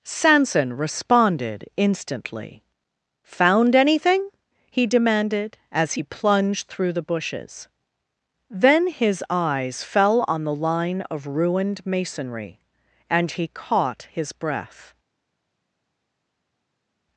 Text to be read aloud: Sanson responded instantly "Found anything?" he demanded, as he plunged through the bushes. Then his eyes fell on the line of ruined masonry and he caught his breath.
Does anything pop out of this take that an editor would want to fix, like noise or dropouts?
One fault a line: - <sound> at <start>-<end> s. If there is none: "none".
none